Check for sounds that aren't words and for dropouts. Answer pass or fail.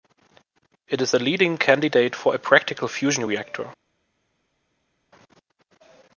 pass